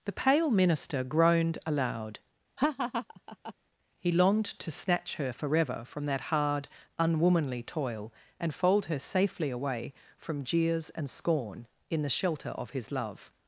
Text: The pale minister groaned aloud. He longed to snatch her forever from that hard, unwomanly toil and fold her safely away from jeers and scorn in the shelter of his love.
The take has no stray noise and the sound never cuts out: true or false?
false